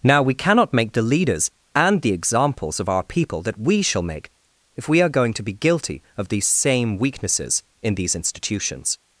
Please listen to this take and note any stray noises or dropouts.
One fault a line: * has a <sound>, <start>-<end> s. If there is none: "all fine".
all fine